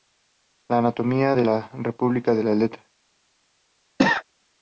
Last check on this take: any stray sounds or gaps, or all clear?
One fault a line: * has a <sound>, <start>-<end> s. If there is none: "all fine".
* has a cough, 4.0-4.2 s